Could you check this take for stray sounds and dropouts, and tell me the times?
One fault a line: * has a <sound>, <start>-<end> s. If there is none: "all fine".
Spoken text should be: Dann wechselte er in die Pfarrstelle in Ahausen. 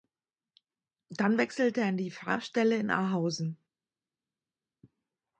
all fine